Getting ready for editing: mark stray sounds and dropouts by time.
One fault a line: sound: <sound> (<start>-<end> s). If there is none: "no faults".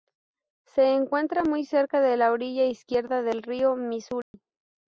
sound: dropout (4.2-4.3 s)